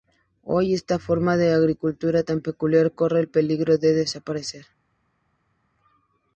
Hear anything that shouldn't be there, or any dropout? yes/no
no